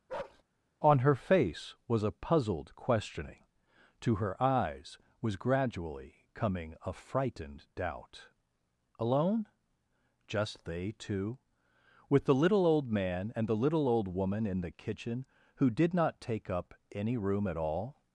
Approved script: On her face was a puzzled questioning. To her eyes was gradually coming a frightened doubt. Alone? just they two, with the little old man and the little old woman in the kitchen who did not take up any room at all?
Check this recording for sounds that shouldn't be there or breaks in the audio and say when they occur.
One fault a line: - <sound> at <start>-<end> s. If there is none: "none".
- bark at 0.1-0.4 s